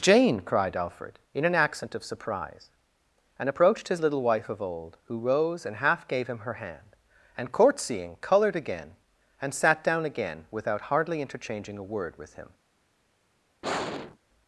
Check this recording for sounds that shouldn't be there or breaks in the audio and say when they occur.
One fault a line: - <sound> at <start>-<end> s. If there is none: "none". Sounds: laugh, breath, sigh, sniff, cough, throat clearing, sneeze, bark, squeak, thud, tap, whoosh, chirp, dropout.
- sigh at 13.6-14.2 s